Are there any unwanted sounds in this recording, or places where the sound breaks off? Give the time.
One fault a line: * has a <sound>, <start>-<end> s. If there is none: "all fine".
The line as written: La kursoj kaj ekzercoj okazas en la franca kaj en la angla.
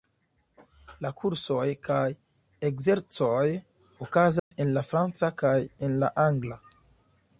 * has a dropout, 4.4-4.5 s